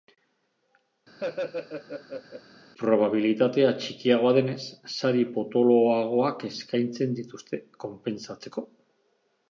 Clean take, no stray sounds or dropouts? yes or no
no